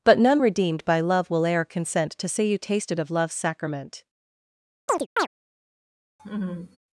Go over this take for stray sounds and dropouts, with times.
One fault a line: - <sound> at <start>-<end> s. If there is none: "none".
- chirp at 4.9-5.3 s
- laugh at 6.2-6.8 s